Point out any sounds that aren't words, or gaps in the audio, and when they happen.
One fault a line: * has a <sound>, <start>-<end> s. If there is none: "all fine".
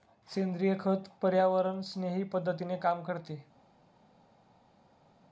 all fine